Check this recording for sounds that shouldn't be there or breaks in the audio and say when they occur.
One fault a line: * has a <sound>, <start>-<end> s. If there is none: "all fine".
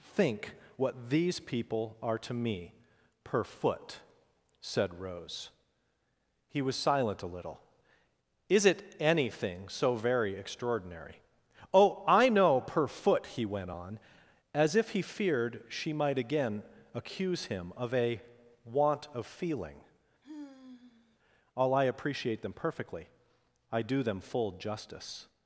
* has a sigh, 20.2-21.2 s